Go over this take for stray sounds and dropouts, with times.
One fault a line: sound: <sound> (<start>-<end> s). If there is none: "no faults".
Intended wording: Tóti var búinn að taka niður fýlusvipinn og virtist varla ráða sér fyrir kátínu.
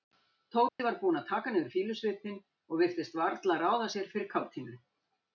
sound: dropout (0.7-0.8 s)